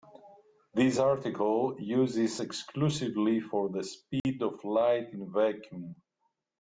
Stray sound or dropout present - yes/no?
yes